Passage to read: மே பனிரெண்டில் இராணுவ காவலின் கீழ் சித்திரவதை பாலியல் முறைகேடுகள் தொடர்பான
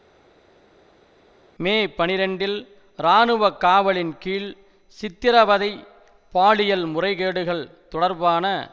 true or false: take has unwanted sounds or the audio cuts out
false